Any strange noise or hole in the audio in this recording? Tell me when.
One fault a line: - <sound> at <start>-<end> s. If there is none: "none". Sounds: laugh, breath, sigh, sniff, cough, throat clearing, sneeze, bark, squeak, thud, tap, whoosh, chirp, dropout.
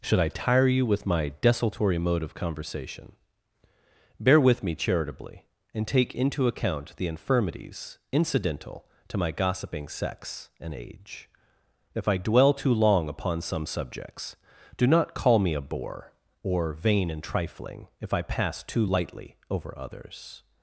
none